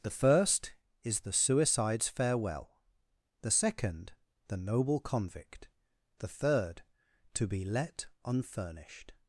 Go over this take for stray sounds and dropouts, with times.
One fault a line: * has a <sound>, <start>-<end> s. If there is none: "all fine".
all fine